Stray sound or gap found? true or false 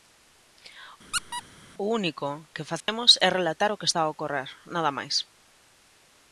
true